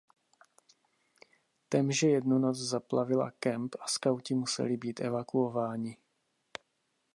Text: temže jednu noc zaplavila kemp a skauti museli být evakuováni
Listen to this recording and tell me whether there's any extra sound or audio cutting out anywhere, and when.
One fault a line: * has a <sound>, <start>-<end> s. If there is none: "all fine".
all fine